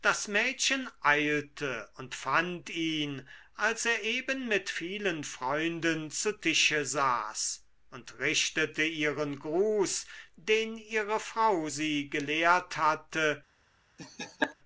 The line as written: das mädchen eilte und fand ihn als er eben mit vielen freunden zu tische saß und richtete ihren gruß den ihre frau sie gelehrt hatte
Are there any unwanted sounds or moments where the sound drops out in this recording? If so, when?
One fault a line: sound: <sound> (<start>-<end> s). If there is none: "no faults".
sound: laugh (14.0-14.6 s)